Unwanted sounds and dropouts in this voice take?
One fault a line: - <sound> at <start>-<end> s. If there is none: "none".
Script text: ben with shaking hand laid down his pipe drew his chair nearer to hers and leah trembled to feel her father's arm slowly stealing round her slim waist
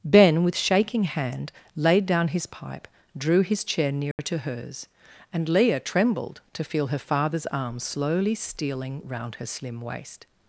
- dropout at 4.1-4.2 s